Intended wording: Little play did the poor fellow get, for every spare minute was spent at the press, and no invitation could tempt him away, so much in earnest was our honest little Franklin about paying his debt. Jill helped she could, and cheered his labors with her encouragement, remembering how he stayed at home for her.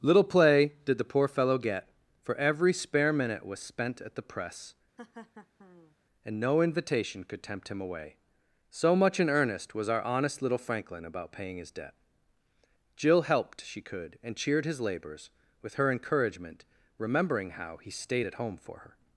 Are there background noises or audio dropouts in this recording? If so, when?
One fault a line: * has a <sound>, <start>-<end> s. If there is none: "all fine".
* has a laugh, 5.0-6.0 s